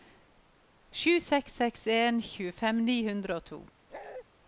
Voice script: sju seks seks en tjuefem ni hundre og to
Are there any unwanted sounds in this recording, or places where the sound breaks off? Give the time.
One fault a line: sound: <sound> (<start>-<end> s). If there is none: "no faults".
sound: bark (3.9-4.2 s)